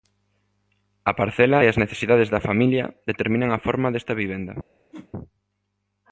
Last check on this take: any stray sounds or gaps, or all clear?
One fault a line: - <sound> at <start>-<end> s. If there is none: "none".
- whoosh at 4.9-5.1 s